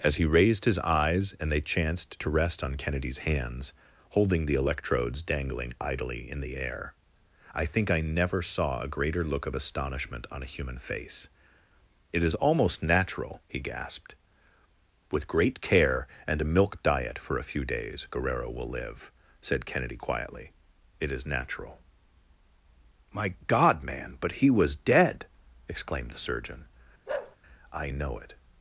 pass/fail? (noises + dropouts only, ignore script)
fail